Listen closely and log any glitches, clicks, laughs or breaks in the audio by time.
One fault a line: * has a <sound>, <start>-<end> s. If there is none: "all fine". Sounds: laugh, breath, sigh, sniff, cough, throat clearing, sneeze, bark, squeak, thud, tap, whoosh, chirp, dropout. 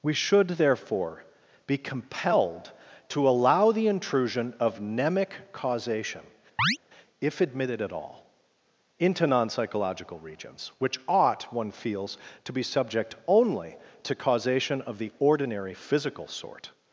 * has a chirp, 6.6-6.8 s